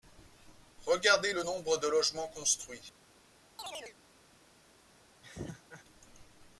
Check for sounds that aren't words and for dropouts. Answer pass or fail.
fail